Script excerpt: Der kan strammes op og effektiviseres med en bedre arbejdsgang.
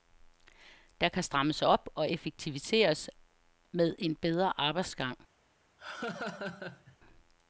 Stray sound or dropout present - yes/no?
yes